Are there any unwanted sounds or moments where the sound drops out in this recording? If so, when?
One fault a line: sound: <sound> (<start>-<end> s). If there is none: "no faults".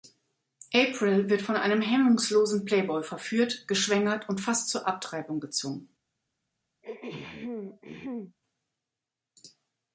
sound: throat clearing (6.8-8.4 s)